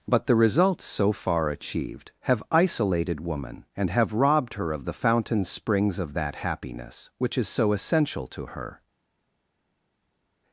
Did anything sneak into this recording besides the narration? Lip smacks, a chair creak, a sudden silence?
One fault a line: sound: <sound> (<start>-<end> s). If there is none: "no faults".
no faults